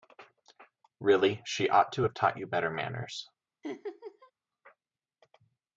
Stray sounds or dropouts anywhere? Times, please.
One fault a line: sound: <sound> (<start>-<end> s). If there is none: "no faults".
sound: laugh (3.6-4.3 s)